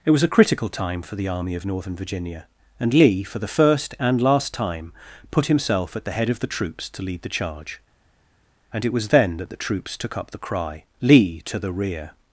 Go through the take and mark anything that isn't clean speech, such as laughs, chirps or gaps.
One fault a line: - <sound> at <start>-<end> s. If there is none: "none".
none